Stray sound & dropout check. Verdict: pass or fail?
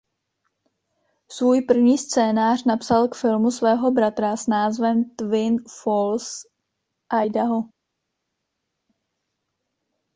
pass